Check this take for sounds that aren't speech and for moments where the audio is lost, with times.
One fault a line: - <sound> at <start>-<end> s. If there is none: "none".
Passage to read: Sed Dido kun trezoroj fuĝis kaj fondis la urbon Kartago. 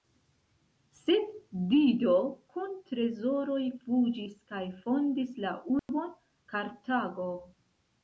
- dropout at 5.8-5.9 s